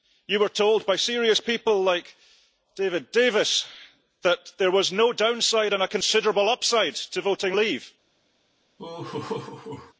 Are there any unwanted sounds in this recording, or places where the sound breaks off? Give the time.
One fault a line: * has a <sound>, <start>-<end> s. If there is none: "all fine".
* has a laugh, 8.8-9.9 s